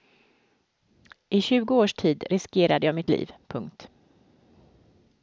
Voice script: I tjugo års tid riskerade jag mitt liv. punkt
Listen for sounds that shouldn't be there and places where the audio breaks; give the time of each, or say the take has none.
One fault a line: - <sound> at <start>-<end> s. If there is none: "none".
none